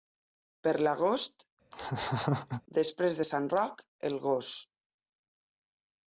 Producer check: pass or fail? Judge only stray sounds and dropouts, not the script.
fail